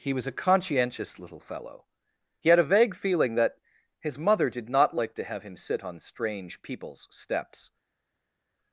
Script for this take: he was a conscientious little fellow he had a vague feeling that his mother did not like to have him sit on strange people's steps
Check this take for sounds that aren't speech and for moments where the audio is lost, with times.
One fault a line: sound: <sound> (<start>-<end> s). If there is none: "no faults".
no faults